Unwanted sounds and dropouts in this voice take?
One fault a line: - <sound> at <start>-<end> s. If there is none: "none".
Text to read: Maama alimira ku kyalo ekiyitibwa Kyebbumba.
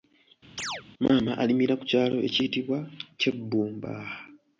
- chirp at 0.6-0.8 s